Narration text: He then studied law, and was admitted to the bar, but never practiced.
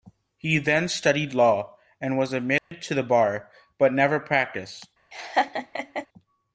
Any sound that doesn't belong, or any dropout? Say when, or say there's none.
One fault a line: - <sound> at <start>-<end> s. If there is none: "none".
- dropout at 2.6-2.7 s
- laugh at 5.1-6.1 s